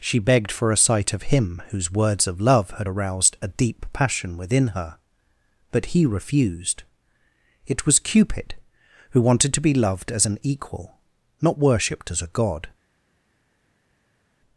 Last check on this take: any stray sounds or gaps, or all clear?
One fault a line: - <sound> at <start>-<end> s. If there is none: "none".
none